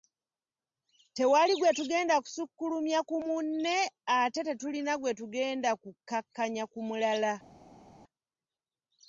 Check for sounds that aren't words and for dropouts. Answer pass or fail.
pass